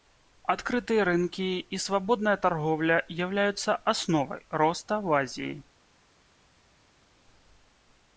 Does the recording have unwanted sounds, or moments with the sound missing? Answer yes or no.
no